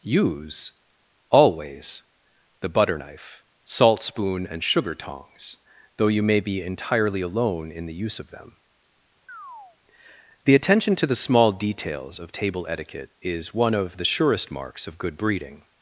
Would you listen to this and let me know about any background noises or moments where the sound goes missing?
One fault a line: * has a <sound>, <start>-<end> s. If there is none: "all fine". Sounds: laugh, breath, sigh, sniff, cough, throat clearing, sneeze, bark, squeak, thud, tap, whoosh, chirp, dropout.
* has a chirp, 9.3-9.8 s